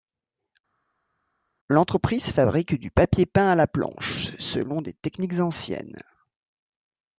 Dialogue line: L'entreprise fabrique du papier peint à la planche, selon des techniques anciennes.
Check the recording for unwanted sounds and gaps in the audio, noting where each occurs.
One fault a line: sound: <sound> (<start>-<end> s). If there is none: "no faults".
no faults